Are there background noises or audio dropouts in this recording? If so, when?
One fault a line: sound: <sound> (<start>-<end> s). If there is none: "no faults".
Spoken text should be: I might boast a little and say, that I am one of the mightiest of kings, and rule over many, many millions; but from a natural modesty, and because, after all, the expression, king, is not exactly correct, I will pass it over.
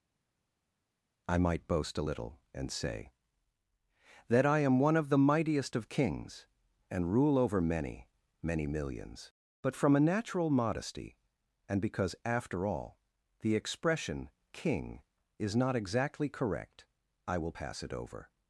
no faults